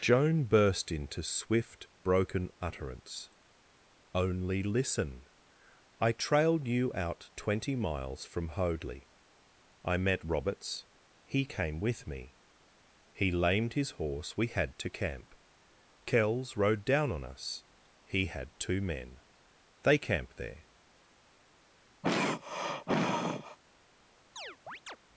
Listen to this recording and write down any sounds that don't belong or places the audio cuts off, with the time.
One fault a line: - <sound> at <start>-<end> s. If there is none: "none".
- throat clearing at 22.0-23.6 s
- chirp at 24.4-25.0 s